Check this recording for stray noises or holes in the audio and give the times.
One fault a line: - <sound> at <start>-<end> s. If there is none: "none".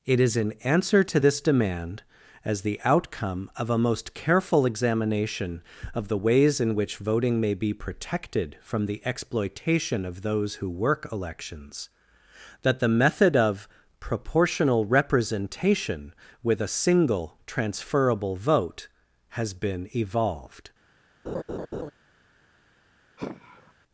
- laugh at 21.3-21.9 s
- sigh at 23.2-23.7 s